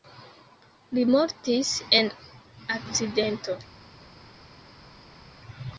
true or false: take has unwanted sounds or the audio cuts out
false